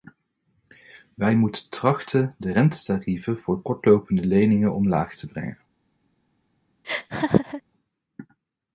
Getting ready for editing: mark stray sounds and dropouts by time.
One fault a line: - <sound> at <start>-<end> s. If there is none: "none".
- laugh at 6.8-7.6 s